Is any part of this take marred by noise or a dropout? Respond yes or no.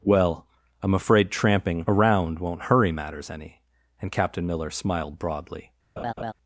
yes